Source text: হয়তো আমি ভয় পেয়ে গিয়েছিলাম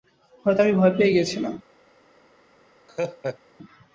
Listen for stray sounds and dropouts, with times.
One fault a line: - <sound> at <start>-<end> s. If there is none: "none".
- laugh at 2.9-3.4 s